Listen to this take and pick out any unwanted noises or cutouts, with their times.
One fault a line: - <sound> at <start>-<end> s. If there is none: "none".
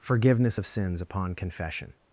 none